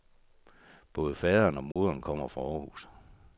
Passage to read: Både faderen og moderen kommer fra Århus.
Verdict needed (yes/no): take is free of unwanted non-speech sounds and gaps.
no